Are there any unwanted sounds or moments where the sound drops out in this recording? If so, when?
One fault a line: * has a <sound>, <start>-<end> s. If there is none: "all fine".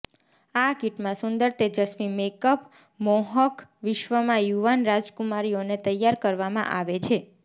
all fine